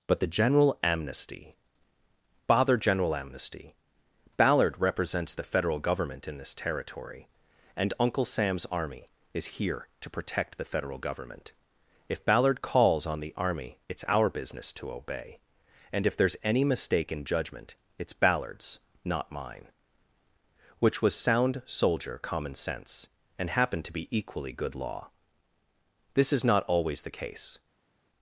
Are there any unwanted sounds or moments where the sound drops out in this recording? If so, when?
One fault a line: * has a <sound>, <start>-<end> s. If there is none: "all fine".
all fine